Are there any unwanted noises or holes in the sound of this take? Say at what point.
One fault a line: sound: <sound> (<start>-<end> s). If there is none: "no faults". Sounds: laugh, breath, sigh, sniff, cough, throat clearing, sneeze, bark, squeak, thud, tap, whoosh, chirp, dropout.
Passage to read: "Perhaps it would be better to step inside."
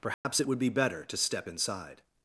sound: dropout (0.1-0.2 s)